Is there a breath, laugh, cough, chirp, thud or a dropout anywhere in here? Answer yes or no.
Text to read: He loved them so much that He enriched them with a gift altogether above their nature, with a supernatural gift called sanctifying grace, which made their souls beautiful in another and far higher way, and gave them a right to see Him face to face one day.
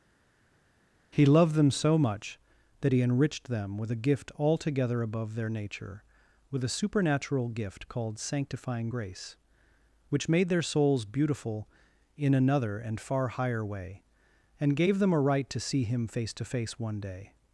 no